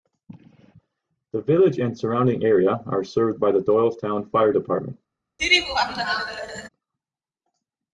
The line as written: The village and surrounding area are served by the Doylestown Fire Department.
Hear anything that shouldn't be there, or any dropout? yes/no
yes